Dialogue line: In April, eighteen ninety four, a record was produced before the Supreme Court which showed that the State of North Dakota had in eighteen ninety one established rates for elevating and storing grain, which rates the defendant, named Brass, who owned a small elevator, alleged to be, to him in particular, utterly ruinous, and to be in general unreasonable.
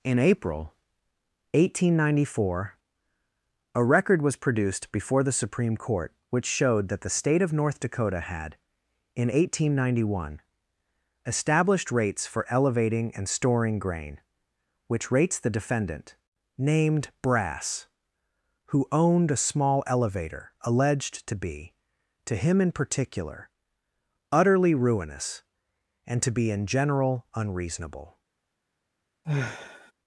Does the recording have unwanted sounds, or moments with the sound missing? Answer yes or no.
yes